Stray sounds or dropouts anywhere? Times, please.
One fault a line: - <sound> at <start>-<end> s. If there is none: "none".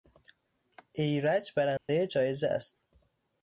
- dropout at 1.8-1.9 s